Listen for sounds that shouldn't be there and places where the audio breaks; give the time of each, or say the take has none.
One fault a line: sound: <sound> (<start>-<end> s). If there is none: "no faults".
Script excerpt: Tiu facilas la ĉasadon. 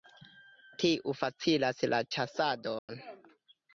sound: dropout (2.8-2.9 s)